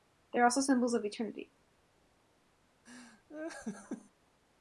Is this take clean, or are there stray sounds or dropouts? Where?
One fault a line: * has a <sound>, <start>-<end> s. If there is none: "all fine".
* has a laugh, 2.9-4.1 s